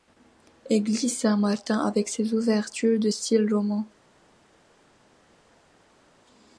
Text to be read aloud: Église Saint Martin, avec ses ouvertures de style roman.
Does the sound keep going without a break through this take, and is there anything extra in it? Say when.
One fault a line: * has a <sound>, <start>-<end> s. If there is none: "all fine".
all fine